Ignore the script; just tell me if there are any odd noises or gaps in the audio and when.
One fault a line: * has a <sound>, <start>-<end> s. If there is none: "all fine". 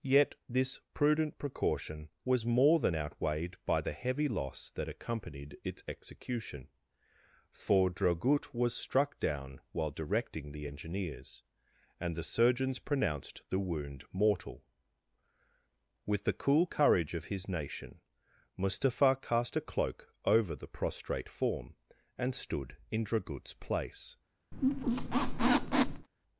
* has a squeak, 24.5-26.1 s